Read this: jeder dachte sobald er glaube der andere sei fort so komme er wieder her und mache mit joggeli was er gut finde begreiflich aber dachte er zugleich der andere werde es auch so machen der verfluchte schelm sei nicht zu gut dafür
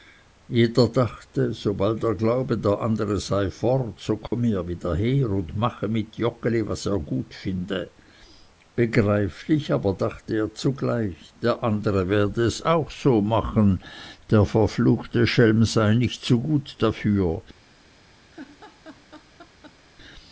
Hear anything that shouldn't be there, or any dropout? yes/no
yes